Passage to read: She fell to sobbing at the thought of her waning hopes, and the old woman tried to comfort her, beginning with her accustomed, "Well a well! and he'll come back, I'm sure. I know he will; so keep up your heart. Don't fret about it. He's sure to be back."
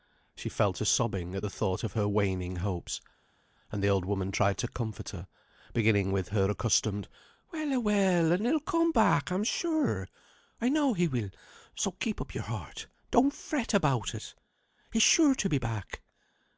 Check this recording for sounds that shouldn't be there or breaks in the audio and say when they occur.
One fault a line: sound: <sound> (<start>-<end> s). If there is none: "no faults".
no faults